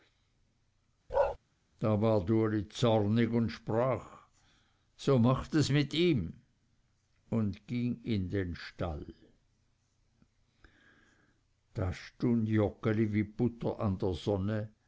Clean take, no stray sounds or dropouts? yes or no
no